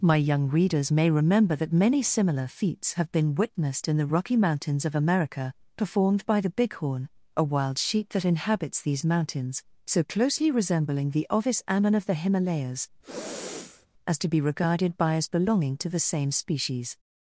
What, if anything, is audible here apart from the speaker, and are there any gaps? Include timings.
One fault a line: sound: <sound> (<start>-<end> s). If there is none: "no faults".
sound: sniff (13.0-13.9 s)